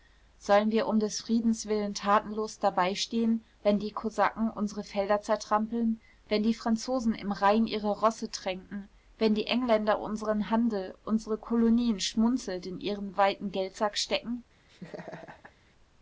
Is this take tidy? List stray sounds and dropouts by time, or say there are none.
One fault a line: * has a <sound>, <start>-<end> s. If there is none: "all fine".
* has a laugh, 14.7-15.5 s